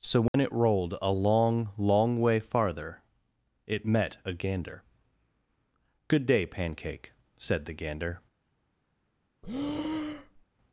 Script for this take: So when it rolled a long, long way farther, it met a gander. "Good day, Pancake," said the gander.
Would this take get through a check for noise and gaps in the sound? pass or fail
fail